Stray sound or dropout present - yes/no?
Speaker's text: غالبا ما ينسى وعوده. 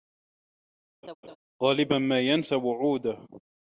yes